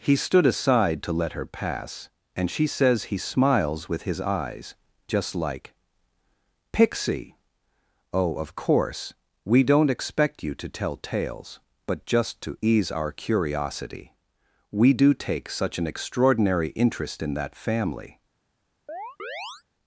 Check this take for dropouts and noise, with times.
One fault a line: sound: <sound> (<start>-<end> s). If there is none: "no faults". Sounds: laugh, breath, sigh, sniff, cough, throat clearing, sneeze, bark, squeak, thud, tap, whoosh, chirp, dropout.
sound: chirp (18.9-19.6 s)